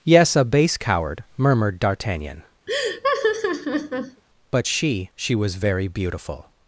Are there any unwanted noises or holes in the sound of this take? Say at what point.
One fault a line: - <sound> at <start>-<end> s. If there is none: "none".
- laugh at 2.7-4.2 s